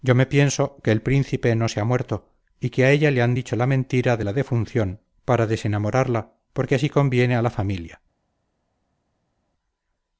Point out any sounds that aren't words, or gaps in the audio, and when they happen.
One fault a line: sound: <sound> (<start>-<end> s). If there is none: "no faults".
no faults